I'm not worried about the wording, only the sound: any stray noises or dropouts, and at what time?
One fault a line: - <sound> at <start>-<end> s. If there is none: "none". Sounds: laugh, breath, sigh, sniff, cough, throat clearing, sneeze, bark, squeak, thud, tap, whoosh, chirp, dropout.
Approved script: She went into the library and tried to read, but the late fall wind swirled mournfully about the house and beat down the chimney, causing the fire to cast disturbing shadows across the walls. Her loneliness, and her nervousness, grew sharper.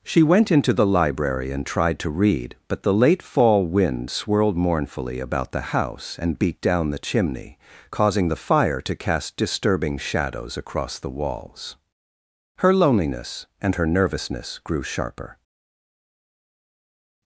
none